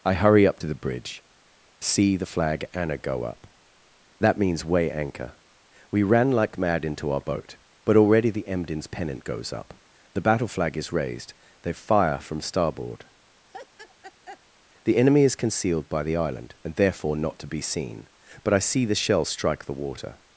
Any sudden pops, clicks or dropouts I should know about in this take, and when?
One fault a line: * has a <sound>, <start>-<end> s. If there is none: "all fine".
* has a laugh, 13.5-14.4 s